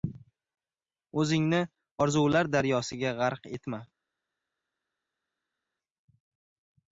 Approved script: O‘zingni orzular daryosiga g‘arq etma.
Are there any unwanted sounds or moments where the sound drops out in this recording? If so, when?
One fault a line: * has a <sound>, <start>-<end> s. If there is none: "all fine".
all fine